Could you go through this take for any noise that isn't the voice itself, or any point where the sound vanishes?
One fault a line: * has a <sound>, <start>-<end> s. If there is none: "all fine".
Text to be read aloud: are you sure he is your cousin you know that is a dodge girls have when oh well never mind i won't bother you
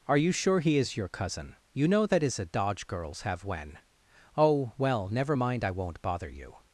all fine